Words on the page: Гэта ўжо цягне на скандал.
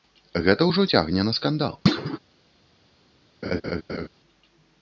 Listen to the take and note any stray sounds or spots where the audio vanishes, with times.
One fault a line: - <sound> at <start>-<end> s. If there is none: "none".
- thud at 1.9-2.2 s
- laugh at 3.4-4.1 s